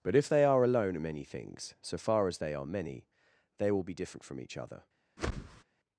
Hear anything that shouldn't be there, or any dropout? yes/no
yes